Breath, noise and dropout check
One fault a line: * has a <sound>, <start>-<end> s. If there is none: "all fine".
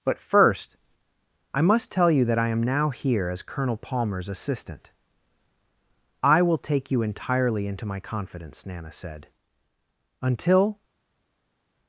all fine